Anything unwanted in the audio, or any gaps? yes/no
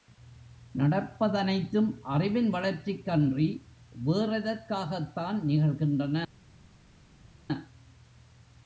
no